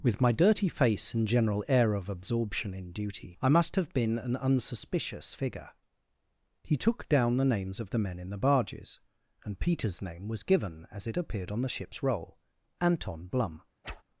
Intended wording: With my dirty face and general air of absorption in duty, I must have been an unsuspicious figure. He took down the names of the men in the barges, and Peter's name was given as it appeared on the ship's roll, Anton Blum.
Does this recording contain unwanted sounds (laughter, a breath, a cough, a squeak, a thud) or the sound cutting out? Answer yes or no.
yes